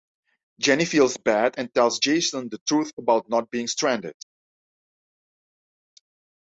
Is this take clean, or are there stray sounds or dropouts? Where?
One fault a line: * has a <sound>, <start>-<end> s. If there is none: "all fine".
all fine